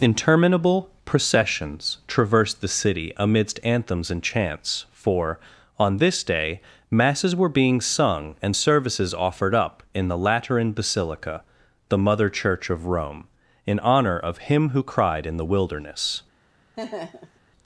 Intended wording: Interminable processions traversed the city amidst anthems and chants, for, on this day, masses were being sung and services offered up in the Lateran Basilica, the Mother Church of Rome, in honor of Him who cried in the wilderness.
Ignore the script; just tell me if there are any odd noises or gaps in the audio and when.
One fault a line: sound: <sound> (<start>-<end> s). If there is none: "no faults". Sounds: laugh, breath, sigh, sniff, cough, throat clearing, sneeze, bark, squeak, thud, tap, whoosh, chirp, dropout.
sound: laugh (16.8-17.4 s)